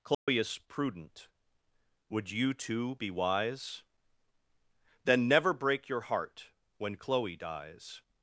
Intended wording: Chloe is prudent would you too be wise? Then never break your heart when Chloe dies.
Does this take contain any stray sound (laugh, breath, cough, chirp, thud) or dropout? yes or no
yes